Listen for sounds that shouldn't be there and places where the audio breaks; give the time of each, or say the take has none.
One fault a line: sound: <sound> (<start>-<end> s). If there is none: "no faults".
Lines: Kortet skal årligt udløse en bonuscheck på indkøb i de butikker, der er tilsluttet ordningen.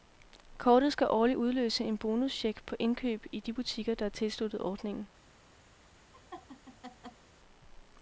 sound: laugh (6.1-7.3 s)